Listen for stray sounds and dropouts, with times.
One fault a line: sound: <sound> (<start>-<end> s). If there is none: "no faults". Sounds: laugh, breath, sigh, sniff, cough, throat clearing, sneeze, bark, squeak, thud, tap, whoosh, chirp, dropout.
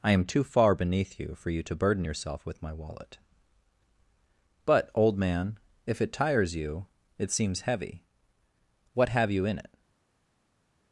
no faults